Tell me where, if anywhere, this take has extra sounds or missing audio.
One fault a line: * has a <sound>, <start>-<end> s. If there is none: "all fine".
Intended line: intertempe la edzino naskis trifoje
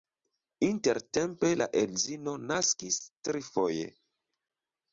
all fine